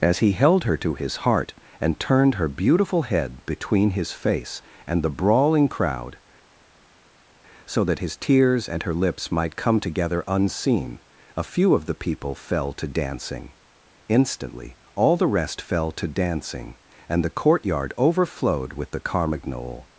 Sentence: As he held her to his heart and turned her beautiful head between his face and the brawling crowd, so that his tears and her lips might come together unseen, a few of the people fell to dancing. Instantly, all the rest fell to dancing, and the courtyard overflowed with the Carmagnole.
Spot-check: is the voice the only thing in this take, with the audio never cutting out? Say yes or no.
yes